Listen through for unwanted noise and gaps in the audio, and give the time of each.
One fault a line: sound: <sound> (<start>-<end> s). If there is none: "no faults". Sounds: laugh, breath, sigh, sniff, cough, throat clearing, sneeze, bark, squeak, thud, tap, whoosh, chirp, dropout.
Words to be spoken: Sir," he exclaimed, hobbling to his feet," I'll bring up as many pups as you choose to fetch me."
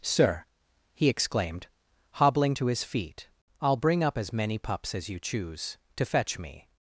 no faults